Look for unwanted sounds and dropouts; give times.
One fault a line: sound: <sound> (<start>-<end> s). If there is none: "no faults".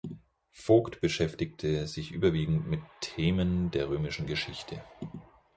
no faults